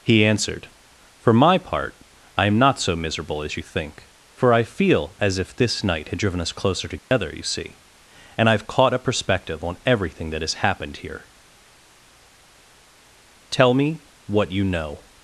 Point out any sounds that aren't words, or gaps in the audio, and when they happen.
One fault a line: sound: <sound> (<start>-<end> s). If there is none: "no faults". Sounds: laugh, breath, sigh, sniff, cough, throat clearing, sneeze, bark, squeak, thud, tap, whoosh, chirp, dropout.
sound: dropout (7.0-7.1 s)